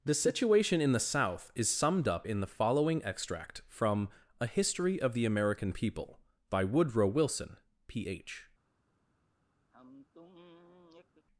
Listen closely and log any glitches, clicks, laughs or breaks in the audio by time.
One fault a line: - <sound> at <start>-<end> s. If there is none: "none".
- sigh at 9.7-11.3 s